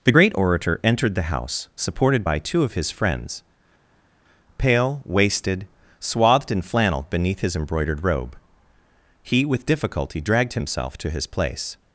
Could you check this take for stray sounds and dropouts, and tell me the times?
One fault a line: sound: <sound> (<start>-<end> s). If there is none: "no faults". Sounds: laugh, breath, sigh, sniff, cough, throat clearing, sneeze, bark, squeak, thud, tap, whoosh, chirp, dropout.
no faults